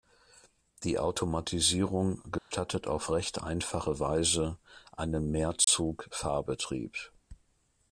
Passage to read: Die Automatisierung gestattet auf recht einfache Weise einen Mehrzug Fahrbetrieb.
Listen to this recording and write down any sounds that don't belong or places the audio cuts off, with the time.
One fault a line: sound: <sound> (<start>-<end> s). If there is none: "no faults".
sound: dropout (2.4-2.5 s)
sound: dropout (5.6-5.7 s)